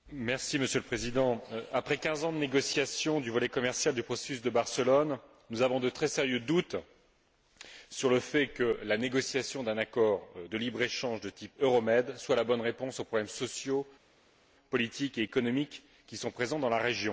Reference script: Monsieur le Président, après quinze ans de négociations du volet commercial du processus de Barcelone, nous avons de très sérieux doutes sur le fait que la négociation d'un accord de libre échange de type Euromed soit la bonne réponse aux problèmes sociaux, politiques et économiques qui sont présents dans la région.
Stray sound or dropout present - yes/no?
no